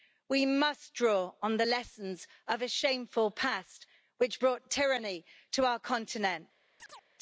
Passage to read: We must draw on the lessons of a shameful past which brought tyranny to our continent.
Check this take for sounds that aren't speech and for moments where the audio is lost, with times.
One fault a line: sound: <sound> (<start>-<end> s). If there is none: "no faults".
sound: chirp (6.8-7.1 s)